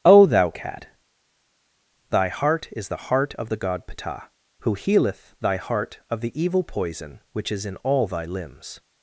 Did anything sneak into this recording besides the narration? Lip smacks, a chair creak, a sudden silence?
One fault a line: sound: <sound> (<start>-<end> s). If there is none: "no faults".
no faults